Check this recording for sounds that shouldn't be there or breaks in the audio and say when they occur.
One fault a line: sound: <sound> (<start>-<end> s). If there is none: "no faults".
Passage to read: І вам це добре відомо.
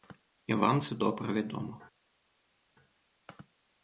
no faults